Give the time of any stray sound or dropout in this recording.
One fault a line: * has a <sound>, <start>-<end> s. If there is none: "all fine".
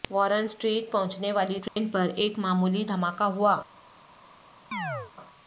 * has a dropout, 1.7-1.8 s
* has a chirp, 4.7-5.1 s